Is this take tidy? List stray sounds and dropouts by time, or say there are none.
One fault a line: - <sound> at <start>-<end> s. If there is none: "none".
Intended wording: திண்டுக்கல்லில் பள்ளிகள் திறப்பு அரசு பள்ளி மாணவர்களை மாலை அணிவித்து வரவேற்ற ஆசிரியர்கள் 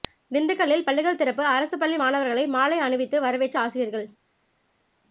none